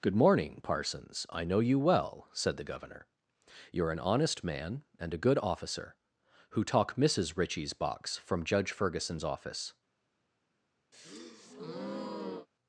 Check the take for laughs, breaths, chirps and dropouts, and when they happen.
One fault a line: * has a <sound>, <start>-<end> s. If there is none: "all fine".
* has a breath, 10.9-12.5 s